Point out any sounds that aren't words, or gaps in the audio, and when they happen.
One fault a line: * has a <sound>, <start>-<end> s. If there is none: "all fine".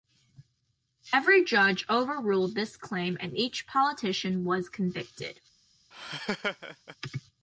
* has a laugh, 5.9-7.0 s